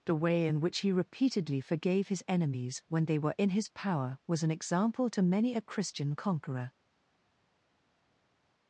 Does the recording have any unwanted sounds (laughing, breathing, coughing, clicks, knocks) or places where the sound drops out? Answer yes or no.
no